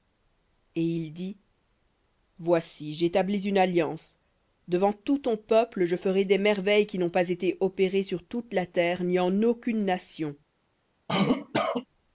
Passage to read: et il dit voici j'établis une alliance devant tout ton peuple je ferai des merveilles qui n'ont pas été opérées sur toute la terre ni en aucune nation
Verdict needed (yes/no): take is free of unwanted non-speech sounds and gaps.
no